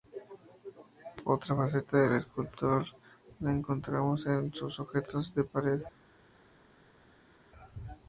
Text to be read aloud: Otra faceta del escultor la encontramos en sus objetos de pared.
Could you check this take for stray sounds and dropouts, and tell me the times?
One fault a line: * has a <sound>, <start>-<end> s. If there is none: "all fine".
all fine